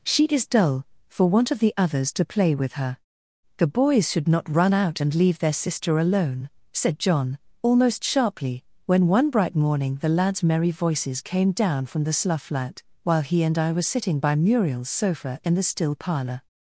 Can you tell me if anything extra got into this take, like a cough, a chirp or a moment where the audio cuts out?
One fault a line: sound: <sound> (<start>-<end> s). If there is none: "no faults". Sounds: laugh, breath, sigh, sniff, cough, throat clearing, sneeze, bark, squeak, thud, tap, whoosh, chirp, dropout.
no faults